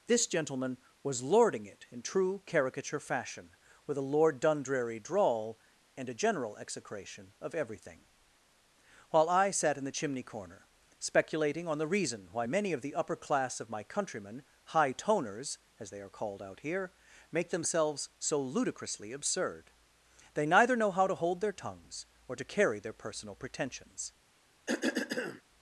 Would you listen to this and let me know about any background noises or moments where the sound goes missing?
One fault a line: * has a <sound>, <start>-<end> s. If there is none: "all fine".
* has a cough, 24.7-25.4 s